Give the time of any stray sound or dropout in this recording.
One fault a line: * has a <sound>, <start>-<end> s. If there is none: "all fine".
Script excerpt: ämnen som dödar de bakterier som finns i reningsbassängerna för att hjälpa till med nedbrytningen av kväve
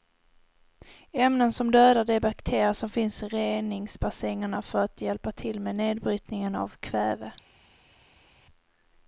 all fine